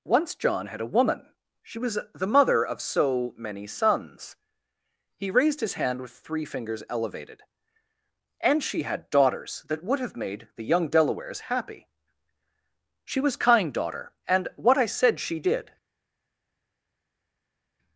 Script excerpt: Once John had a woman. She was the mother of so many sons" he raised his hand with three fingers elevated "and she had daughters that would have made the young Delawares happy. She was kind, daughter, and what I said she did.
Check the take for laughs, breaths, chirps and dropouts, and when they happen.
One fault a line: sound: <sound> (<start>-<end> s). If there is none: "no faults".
no faults